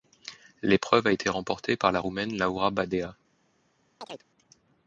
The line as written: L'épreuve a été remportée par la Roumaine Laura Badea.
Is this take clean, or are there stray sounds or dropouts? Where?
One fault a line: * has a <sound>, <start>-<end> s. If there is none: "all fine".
* has a chirp, 4.0-4.3 s